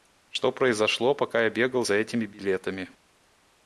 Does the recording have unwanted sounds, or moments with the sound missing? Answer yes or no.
no